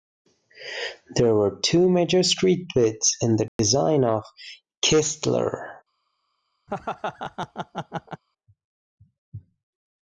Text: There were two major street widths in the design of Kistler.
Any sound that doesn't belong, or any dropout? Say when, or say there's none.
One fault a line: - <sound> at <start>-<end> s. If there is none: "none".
- dropout at 3.5-3.6 s
- laugh at 6.7-8.2 s